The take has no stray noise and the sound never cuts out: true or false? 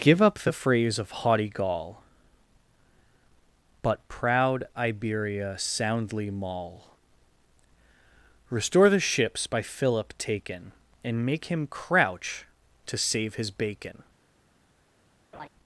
false